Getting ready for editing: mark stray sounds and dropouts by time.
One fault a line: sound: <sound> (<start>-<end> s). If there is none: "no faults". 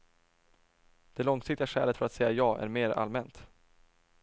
no faults